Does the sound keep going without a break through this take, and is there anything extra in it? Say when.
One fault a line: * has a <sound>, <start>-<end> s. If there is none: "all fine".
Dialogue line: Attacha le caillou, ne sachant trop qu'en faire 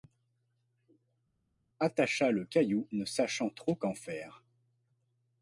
all fine